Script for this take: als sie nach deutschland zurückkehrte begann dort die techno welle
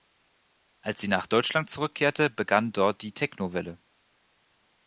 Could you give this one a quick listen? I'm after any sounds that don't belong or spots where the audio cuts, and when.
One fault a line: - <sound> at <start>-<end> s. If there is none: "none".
none